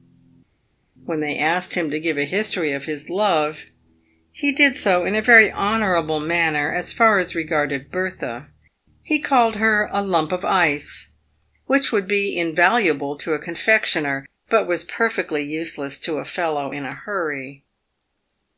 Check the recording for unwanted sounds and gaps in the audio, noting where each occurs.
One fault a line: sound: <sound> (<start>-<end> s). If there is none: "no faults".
no faults